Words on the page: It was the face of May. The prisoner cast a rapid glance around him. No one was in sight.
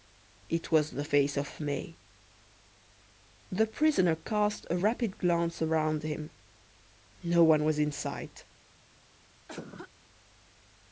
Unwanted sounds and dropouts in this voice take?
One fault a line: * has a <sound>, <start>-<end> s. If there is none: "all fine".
* has a cough, 9.5-9.9 s